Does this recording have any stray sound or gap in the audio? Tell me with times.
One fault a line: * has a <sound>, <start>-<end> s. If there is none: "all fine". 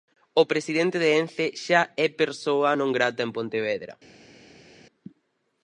all fine